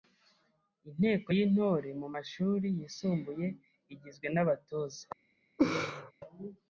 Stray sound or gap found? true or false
true